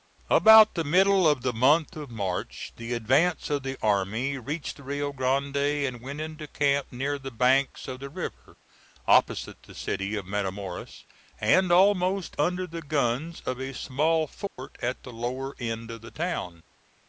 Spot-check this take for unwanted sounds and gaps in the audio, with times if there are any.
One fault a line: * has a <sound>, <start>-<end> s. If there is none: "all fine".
* has a dropout, 14.5-14.6 s